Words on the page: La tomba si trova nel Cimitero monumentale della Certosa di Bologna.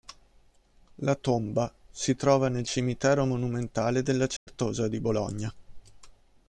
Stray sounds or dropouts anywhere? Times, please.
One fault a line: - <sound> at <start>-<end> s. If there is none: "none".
- dropout at 4.4-4.5 s